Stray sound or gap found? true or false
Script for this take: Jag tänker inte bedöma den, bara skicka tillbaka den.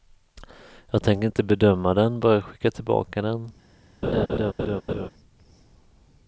true